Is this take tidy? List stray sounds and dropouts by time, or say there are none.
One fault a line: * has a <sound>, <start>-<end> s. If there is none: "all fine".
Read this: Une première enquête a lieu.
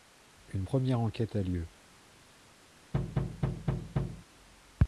* has a thud, 2.9-4.3 s